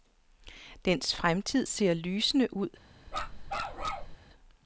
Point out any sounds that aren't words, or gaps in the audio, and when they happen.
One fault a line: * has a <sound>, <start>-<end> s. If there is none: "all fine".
* has a bark, 3.1-4.2 s